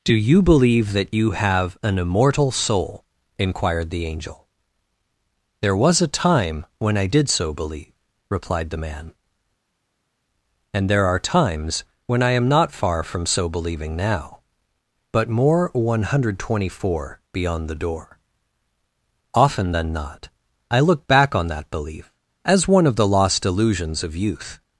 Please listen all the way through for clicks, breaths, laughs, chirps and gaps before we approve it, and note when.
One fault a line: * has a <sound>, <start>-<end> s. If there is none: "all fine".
all fine